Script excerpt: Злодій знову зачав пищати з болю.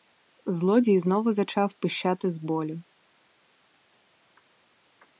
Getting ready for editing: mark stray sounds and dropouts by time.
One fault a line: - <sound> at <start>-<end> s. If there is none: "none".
none